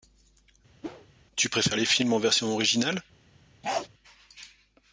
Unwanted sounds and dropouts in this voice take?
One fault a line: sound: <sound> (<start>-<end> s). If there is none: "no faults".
sound: whoosh (0.8-1.1 s)
sound: bark (3.6-3.9 s)